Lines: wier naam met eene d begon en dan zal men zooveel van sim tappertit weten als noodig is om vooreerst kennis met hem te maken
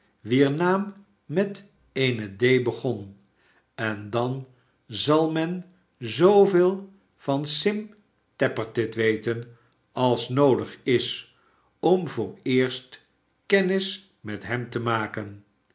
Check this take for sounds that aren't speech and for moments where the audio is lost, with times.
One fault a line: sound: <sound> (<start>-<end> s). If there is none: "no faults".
no faults